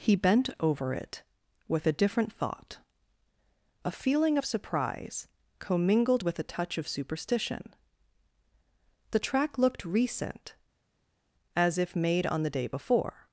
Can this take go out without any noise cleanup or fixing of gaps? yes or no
yes